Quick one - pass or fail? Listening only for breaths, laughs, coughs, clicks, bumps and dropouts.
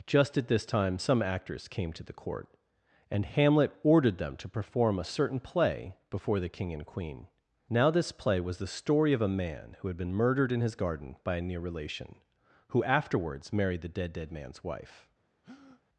fail